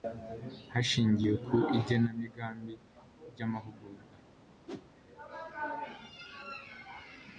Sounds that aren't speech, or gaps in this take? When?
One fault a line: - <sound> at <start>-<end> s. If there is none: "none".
- whoosh at 4.7-4.9 s